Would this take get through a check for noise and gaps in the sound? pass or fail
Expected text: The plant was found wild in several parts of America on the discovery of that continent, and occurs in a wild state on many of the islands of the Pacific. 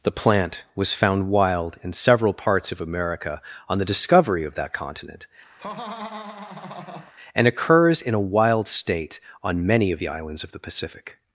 fail